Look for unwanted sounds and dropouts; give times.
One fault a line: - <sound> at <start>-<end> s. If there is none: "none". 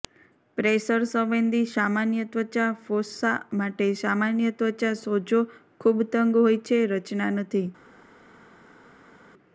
none